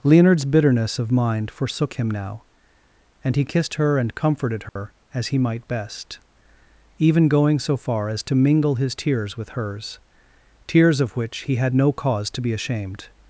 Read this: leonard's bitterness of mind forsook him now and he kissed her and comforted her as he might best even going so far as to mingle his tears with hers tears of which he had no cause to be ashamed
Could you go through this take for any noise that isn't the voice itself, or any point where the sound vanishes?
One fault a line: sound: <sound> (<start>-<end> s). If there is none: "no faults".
sound: dropout (4.7-4.8 s)